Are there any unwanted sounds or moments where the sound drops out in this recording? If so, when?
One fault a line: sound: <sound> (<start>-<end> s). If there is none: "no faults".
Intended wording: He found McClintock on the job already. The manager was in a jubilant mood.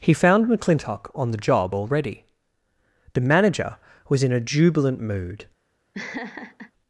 sound: laugh (5.9-6.7 s)